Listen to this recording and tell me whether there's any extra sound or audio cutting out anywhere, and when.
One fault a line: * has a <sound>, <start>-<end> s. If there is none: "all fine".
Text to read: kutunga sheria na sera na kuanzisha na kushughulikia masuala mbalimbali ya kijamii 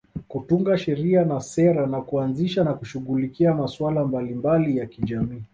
all fine